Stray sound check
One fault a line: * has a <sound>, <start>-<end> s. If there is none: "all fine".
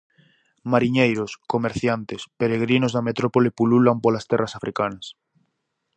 all fine